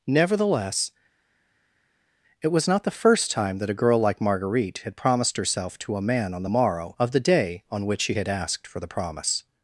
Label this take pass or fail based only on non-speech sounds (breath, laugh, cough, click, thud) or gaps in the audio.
pass